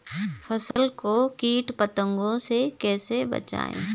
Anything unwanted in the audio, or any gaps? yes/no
yes